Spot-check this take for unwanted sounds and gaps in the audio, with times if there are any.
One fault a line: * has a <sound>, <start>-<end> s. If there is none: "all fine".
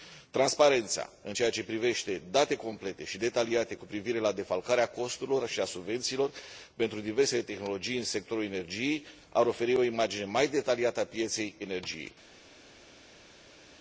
all fine